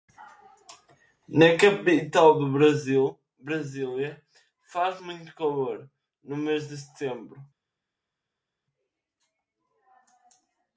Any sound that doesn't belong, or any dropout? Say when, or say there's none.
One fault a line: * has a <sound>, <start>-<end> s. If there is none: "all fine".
all fine